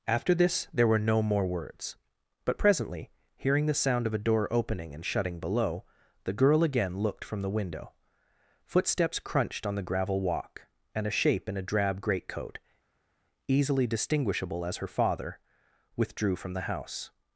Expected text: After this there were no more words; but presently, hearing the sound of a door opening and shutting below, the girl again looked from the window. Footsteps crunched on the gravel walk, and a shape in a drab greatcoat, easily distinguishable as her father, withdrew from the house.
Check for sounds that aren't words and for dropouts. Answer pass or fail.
pass